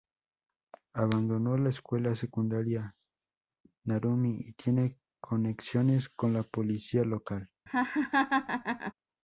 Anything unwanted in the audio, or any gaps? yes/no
yes